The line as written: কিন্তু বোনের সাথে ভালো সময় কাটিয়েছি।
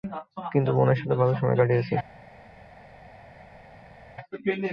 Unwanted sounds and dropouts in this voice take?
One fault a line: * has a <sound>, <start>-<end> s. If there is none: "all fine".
all fine